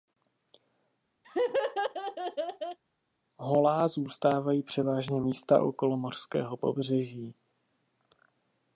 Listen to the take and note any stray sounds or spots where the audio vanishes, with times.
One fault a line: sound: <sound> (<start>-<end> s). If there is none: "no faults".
sound: laugh (1.2-2.8 s)